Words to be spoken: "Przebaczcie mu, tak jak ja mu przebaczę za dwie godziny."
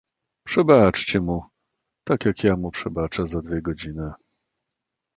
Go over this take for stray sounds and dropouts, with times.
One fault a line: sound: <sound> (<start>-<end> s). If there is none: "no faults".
no faults